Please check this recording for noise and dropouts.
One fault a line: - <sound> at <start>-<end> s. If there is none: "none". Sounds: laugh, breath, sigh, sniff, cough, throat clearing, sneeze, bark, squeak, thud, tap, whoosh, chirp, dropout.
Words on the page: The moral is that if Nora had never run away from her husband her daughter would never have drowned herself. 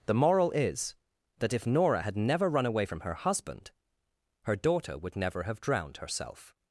none